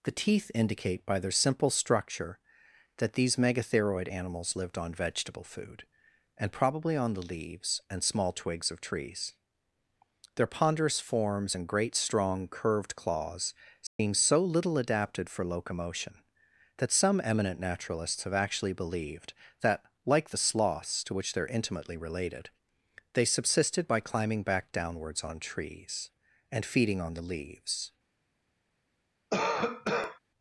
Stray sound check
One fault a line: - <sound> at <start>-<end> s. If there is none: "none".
- dropout at 13.9-14.0 s
- cough at 29.3-30.2 s